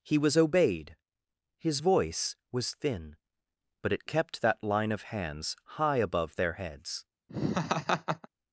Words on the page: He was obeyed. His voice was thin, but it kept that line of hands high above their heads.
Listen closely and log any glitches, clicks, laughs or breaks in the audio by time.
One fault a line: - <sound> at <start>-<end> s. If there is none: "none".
- laugh at 7.3-8.3 s